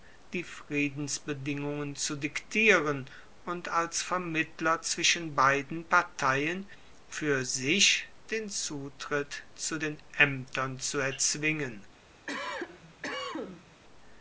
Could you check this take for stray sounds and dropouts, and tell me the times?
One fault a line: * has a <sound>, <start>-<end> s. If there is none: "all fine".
* has a cough, 12.3-13.8 s